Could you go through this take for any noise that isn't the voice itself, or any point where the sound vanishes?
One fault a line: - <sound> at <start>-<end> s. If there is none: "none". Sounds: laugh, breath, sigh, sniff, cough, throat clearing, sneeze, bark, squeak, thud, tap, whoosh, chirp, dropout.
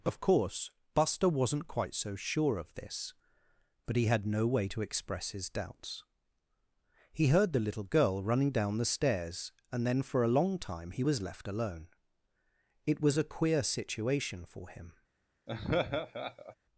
- laugh at 15.5-16.6 s